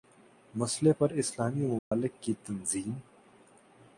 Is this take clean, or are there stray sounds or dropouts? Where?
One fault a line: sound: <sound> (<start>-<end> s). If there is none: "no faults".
sound: dropout (1.8-1.9 s)